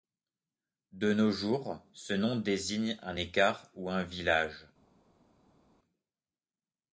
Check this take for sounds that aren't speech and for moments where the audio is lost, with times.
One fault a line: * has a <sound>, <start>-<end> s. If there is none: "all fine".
all fine